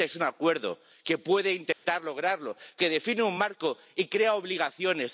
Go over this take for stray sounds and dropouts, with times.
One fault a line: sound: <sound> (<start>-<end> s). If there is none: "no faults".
sound: dropout (1.7-1.8 s)